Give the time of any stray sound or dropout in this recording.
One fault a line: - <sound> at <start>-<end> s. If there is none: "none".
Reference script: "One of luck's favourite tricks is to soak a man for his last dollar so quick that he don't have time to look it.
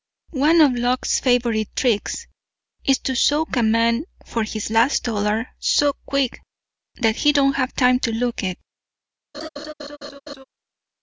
- laugh at 9.3-10.4 s